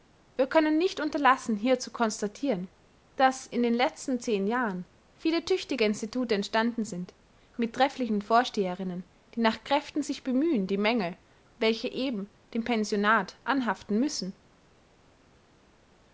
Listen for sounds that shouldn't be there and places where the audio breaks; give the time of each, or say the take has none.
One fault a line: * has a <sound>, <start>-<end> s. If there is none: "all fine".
all fine